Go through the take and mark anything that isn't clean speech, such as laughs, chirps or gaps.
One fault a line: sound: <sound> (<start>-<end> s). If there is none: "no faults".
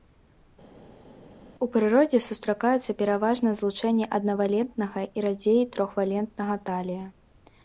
no faults